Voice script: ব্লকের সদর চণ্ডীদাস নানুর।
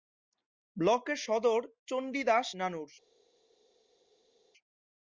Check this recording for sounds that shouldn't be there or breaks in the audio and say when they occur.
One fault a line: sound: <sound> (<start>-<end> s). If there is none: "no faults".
no faults